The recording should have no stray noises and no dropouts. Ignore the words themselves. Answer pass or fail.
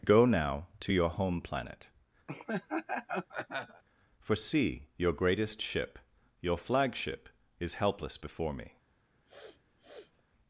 fail